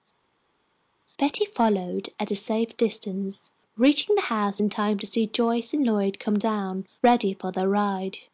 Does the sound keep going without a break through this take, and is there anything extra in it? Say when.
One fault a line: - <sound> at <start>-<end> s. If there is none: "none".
none